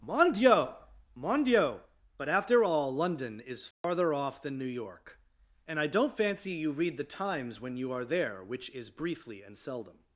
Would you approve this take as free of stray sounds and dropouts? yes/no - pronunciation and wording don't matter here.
no